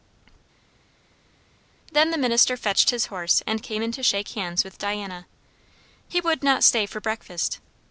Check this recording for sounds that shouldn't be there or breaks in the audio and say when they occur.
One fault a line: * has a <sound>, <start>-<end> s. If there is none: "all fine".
all fine